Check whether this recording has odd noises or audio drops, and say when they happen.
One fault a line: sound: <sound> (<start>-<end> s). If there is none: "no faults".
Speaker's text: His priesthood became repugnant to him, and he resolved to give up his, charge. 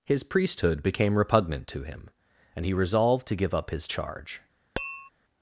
sound: tap (4.8-5.1 s)